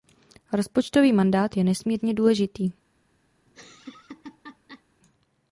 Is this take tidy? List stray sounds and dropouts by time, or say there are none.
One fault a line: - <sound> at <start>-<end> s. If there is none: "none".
- laugh at 3.5-4.8 s